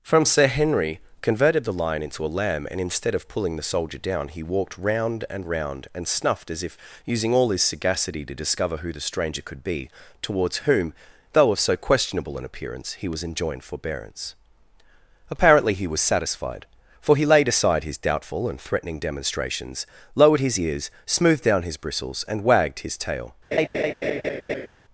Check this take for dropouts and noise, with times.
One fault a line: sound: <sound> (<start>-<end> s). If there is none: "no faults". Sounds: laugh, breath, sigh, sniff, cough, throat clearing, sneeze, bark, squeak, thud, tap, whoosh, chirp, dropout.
sound: laugh (23.5-24.7 s)